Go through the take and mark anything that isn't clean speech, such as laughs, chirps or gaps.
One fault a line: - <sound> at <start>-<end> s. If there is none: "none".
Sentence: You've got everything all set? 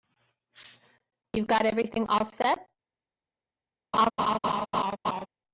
- laugh at 3.9-5.3 s